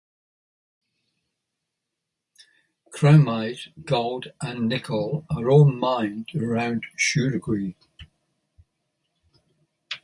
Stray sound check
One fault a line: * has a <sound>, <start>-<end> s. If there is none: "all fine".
all fine